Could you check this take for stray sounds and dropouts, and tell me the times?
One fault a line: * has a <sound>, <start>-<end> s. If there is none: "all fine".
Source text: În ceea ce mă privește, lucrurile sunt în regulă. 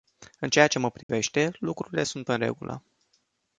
* has a dropout, 1.0-1.1 s